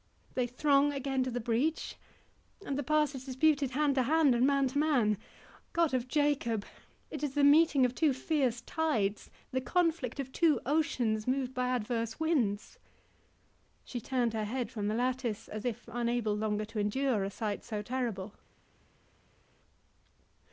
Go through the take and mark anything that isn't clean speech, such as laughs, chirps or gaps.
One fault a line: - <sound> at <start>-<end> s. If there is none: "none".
none